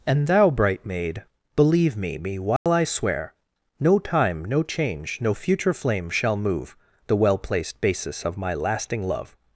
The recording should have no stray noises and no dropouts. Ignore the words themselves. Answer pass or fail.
fail